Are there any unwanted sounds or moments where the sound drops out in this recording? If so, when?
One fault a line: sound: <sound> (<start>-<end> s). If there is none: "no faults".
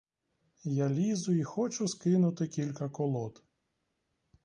no faults